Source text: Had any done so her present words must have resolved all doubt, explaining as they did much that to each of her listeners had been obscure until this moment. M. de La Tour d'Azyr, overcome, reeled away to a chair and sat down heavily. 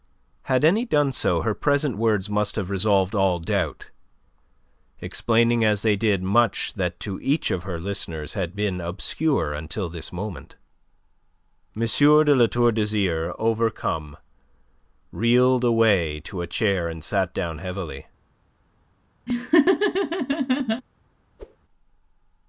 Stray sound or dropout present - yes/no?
yes